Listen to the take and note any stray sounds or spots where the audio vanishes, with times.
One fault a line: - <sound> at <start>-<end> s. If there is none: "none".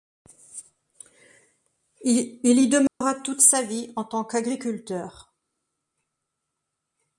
- dropout at 2.9-3.0 s